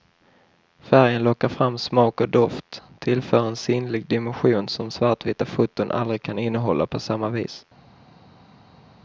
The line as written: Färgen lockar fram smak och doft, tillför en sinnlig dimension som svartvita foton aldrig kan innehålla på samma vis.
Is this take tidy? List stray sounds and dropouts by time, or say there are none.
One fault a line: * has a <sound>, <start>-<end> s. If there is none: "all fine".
all fine